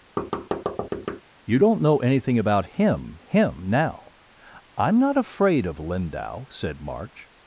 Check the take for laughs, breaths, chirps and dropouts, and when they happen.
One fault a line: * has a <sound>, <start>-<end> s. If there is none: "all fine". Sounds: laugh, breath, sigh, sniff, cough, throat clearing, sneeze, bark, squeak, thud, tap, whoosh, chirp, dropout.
* has a thud, 0.2-1.2 s